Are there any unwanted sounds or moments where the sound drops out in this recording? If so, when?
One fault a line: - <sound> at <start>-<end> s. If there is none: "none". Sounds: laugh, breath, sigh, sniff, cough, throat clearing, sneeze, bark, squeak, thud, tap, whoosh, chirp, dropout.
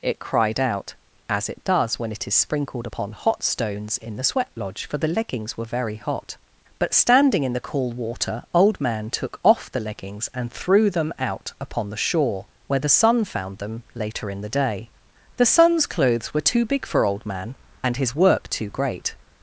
none